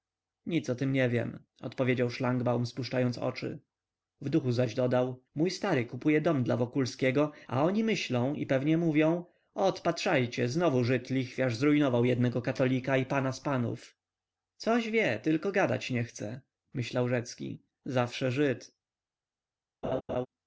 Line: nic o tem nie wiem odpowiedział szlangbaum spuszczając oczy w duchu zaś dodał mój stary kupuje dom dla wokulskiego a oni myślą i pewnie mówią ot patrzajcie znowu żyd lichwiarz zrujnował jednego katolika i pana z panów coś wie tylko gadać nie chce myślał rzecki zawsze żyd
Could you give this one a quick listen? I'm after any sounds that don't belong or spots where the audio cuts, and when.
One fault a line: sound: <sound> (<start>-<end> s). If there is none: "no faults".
sound: laugh (19.8-20.3 s)